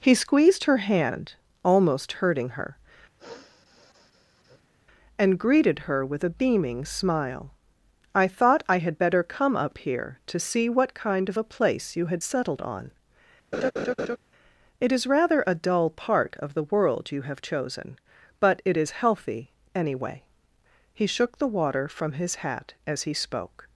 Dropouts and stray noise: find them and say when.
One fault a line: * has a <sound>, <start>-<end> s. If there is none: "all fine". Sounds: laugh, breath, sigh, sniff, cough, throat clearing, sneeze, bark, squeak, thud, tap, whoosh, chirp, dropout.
* has a sniff, 3.2-4.7 s
* has a laugh, 13.5-14.2 s